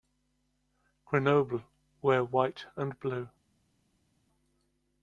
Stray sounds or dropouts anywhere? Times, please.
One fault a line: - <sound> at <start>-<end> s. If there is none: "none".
none